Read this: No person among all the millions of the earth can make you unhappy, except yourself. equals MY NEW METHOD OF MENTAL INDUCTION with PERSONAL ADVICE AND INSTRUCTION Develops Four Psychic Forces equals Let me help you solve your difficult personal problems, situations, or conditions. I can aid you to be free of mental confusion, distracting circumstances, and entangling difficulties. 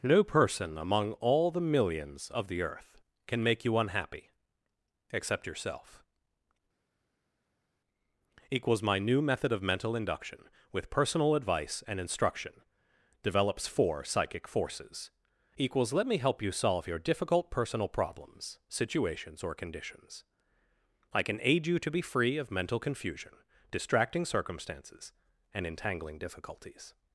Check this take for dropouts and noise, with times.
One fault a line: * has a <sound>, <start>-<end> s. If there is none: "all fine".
all fine